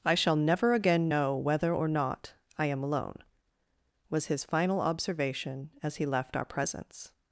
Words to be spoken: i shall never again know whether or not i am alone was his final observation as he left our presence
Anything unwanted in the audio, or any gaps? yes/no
no